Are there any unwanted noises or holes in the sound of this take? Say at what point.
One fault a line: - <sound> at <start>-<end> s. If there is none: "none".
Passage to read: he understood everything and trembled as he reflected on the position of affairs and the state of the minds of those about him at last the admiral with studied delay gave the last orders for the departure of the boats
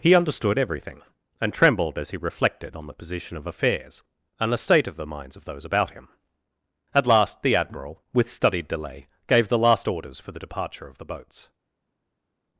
none